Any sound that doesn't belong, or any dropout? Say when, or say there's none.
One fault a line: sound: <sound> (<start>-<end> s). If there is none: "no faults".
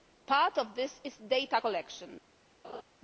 sound: laugh (2.6-2.8 s)